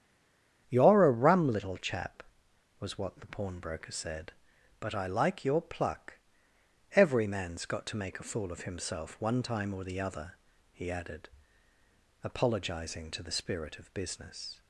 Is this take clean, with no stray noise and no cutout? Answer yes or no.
yes